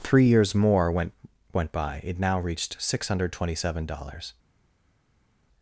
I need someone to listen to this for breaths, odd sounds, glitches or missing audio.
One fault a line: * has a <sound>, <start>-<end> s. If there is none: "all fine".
all fine